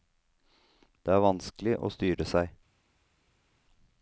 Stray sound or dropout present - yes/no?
no